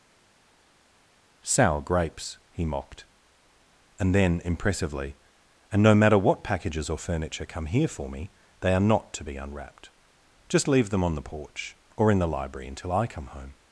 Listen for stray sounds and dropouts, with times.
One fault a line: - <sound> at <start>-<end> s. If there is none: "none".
none